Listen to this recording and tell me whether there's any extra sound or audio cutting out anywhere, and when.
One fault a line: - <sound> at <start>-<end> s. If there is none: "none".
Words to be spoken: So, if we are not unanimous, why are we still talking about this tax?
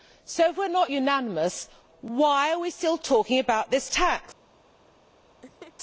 - laugh at 5.4-5.7 s